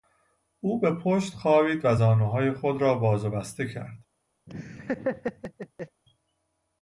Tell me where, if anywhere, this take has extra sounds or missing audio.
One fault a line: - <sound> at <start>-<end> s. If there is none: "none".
- laugh at 4.5-6.0 s